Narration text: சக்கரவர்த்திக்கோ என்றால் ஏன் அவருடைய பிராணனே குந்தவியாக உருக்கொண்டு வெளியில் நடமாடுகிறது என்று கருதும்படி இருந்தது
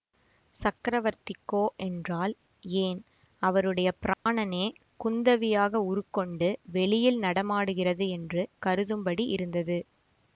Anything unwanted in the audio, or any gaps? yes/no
yes